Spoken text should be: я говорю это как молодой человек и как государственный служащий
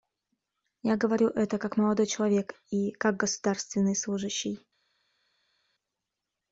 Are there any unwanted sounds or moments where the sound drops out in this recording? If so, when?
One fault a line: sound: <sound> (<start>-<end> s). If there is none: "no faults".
no faults